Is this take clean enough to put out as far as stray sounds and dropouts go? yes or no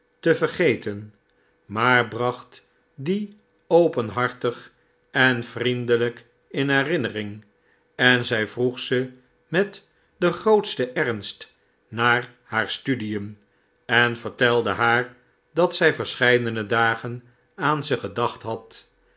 yes